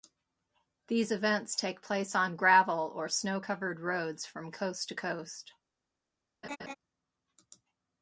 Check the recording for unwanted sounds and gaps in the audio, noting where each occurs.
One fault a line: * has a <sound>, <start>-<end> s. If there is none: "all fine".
* has a laugh, 6.4-6.8 s